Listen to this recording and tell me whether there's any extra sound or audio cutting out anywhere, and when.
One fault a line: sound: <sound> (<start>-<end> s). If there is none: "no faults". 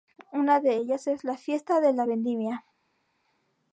no faults